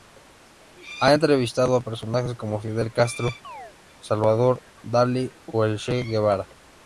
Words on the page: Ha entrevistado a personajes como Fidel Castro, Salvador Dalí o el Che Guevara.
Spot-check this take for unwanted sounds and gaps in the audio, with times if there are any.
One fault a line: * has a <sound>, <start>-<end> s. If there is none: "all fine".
* has a chirp, 3.4-3.8 s